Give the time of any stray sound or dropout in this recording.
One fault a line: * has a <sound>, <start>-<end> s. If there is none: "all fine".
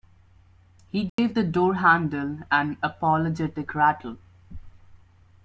* has a dropout, 1.1-1.2 s